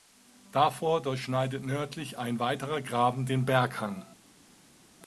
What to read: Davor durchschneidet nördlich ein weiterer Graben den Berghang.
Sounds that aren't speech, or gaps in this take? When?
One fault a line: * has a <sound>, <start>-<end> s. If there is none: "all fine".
all fine